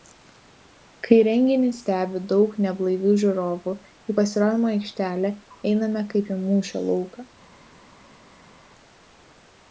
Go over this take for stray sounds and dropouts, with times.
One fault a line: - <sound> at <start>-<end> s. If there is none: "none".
none